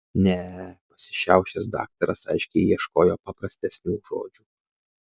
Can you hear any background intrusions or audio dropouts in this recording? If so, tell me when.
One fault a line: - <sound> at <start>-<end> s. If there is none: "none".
none